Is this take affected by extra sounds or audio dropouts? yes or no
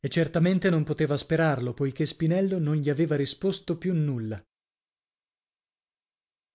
no